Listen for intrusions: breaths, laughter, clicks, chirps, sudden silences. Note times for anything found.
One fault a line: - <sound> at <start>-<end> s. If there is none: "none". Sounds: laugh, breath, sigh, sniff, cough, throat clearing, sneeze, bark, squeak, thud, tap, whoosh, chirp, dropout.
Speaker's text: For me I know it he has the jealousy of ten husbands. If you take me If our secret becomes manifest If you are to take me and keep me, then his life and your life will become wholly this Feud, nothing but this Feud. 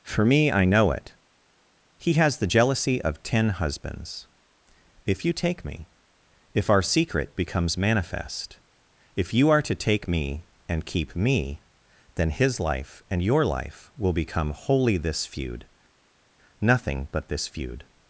none